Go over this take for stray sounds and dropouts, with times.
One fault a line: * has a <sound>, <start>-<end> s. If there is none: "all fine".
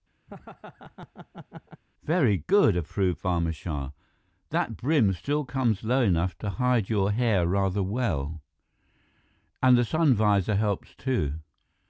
* has a laugh, 0.3-1.8 s